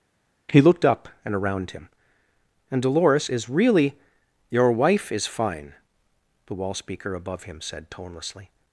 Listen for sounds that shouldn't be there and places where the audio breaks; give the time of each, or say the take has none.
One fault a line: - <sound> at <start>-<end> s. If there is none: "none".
none